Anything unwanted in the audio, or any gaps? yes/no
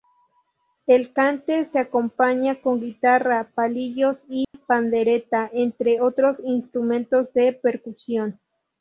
yes